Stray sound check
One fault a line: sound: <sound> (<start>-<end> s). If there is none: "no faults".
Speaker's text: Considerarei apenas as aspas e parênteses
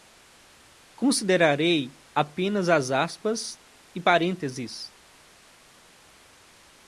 no faults